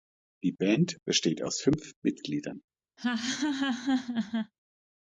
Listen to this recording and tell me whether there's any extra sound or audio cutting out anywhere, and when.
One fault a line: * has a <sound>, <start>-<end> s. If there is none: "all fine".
* has a laugh, 3.0-4.5 s